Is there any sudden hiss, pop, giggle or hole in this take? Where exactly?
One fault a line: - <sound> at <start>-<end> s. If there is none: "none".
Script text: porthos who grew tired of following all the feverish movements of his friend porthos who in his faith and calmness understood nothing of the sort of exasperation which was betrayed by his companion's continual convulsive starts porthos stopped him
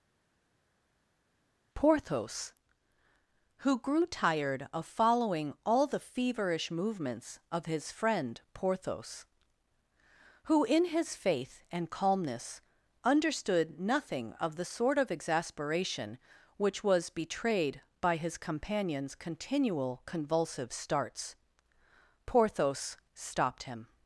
none